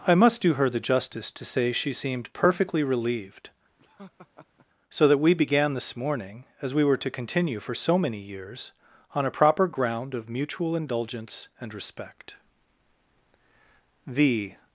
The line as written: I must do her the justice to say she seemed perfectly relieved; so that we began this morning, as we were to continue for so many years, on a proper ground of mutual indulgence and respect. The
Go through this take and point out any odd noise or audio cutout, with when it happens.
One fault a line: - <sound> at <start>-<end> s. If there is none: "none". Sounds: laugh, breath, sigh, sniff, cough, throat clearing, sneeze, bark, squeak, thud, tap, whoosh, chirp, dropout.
- laugh at 3.8-4.7 s